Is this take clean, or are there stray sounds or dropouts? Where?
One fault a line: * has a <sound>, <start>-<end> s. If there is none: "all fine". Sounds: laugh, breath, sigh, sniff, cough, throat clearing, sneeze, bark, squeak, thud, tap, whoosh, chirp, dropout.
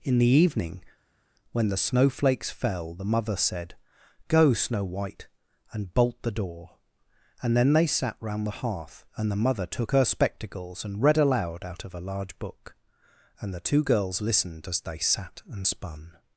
all fine